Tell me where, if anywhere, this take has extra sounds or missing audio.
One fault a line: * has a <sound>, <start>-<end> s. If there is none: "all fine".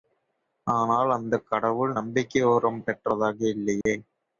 * has a dropout, 3.8-3.9 s